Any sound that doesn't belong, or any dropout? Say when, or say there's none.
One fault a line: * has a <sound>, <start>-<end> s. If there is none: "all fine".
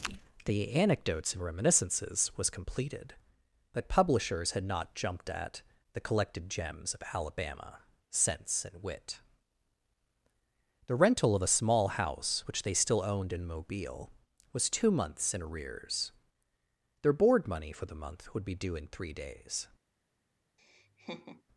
* has a laugh, 20.6-21.4 s